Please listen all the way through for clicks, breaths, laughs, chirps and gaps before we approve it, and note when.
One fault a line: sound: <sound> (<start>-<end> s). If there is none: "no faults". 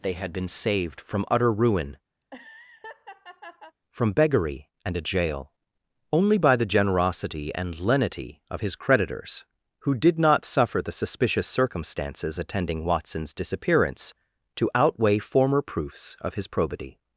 sound: laugh (2.2-3.8 s)